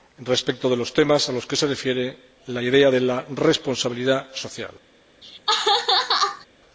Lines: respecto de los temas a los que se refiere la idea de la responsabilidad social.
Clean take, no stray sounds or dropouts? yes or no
no